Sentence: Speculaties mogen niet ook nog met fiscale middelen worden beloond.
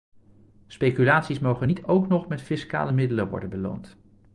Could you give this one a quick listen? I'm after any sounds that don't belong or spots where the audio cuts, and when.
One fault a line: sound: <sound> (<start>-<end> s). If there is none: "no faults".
no faults